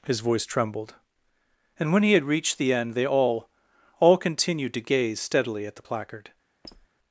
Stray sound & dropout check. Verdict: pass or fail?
fail